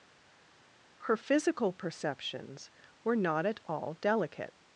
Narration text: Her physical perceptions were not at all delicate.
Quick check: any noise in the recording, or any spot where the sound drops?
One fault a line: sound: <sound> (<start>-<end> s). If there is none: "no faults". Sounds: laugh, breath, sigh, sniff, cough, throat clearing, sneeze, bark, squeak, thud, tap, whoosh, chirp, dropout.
no faults